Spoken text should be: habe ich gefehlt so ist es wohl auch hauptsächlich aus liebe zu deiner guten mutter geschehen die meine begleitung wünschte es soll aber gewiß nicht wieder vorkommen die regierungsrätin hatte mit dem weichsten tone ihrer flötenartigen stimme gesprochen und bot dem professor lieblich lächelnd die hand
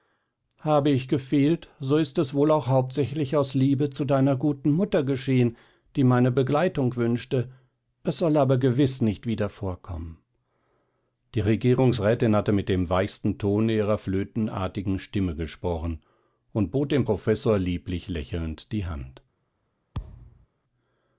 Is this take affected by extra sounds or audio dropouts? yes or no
yes